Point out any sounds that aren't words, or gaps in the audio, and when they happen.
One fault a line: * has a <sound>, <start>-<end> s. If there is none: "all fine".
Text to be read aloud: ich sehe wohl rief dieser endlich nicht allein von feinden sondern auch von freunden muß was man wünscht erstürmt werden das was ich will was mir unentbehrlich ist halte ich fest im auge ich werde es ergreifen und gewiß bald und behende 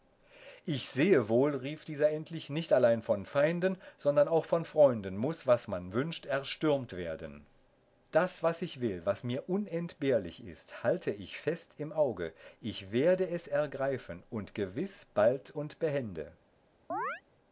* has a chirp, 16.9-17.2 s